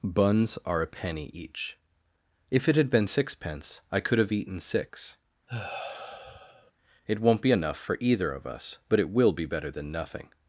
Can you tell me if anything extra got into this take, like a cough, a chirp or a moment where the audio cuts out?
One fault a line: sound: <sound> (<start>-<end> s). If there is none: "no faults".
sound: sigh (5.5-6.7 s)